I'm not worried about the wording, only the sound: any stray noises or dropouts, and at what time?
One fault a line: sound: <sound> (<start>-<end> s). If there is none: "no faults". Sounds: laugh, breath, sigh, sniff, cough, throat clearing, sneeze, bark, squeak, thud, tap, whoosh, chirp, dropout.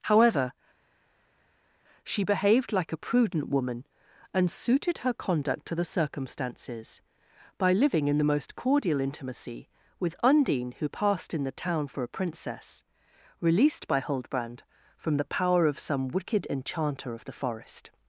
no faults